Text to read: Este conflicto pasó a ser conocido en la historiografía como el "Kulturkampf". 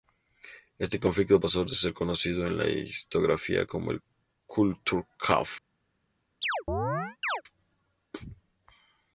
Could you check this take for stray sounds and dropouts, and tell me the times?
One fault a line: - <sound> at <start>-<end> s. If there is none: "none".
- chirp at 6.4-7.4 s